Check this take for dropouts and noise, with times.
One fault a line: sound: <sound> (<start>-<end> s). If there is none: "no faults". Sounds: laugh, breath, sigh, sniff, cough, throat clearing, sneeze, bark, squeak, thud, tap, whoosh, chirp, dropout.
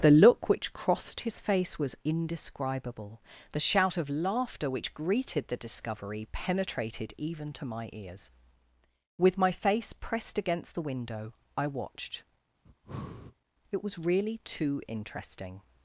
sound: breath (12.7-13.4 s)